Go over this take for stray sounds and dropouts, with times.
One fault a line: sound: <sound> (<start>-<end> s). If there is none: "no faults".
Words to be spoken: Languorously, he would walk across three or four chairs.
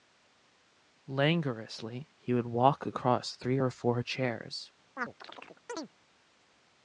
sound: chirp (5.0-5.9 s)